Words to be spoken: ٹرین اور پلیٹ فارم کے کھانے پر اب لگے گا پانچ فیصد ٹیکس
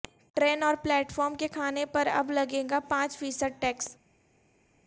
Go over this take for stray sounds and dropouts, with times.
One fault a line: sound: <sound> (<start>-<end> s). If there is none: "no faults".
no faults